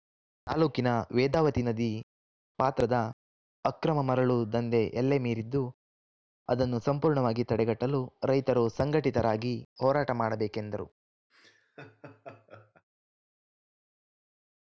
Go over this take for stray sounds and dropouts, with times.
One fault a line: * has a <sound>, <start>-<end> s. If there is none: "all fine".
* has a laugh, 11.3-12.8 s